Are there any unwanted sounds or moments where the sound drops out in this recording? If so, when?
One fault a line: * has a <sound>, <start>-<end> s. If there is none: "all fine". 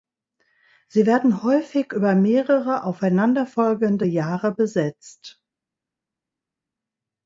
all fine